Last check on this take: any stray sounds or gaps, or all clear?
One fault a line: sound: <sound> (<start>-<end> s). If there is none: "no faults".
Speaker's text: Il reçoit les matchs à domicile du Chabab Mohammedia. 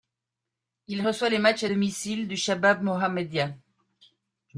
no faults